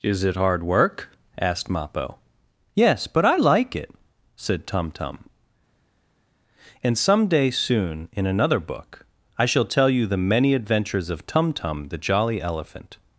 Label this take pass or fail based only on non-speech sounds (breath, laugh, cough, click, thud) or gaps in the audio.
pass